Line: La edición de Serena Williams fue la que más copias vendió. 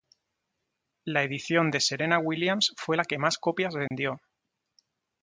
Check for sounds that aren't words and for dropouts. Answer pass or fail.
fail